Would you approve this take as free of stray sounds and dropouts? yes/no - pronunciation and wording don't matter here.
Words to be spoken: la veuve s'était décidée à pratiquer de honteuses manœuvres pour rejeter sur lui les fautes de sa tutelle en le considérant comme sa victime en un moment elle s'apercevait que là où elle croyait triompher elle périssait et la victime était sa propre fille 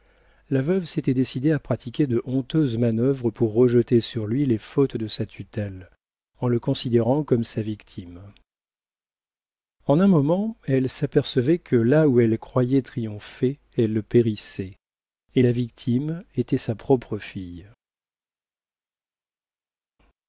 yes